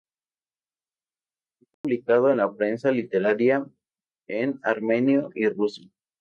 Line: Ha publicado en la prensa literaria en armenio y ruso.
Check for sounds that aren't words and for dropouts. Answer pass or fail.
fail